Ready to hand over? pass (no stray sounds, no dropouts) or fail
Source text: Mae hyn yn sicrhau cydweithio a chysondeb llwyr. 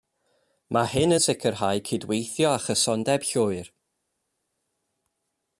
pass